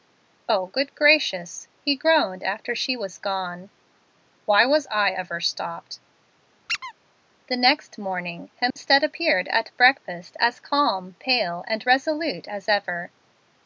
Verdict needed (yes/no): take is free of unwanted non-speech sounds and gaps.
no